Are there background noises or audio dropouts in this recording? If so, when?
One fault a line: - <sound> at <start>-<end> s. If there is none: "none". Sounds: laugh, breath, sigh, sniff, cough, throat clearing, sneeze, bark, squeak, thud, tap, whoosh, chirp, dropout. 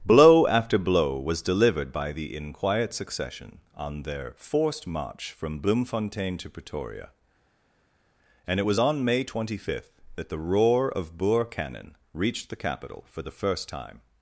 none